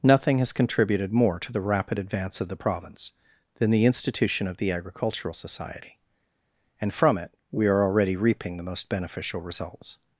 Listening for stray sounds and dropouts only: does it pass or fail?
pass